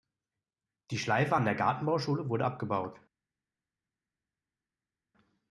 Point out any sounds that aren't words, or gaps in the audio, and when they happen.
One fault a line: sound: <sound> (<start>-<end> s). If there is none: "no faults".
no faults